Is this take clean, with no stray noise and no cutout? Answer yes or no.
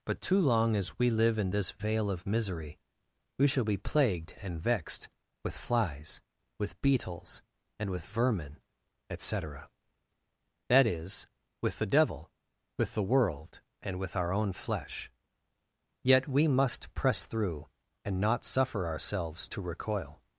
yes